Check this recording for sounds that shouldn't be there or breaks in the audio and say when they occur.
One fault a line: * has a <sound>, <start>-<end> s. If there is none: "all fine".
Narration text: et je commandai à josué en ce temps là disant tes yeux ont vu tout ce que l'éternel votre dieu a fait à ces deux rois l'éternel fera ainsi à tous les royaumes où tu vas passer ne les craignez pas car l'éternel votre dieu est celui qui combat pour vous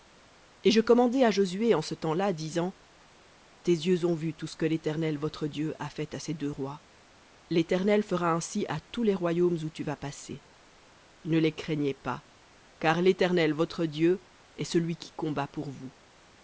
all fine